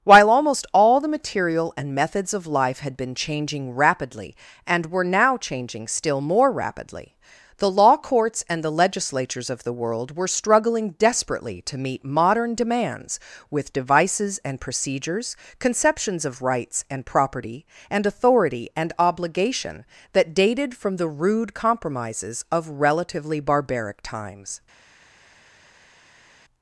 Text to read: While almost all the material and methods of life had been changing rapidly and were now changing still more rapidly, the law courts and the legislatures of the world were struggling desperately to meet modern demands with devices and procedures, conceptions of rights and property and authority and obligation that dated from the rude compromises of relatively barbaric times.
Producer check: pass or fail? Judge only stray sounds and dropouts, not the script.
pass